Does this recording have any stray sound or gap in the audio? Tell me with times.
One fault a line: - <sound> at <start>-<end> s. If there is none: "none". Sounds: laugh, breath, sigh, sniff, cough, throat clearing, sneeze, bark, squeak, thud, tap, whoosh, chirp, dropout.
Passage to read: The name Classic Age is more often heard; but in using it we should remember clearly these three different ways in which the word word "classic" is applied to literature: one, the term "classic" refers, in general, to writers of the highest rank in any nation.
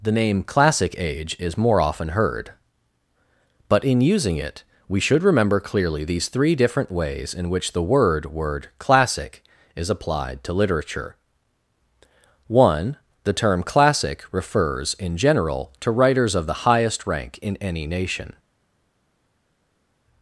none